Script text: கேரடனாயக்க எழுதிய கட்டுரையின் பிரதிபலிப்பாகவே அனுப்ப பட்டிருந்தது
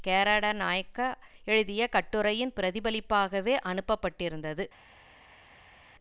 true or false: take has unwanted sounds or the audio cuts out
false